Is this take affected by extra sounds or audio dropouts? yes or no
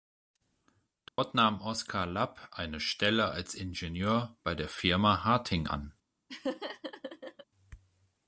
yes